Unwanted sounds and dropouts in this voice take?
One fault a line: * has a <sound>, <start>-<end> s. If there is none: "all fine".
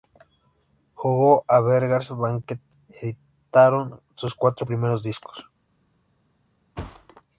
* has a thud, 6.8-7.2 s